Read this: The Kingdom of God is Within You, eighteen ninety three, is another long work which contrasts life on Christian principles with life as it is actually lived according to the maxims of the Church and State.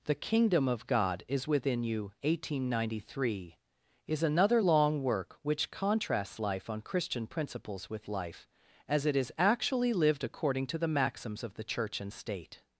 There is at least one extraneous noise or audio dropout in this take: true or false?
false